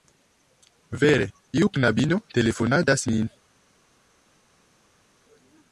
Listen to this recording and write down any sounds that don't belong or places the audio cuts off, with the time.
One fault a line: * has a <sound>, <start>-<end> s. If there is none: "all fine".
all fine